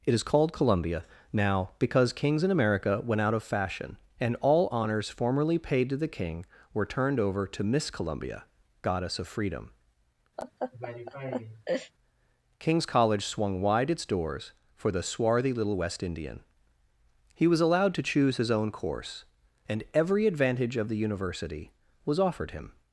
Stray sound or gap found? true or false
true